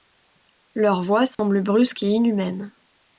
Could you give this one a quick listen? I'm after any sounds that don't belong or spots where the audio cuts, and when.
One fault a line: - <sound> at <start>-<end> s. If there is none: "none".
- dropout at 1.3-1.4 s